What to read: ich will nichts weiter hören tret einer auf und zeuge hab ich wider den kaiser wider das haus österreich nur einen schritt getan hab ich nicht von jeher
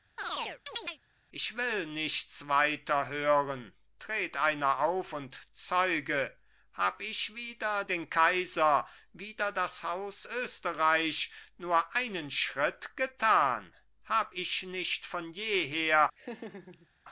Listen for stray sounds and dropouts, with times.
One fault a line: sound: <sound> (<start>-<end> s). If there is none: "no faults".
sound: chirp (0.2-1.0 s)
sound: laugh (16.2-16.9 s)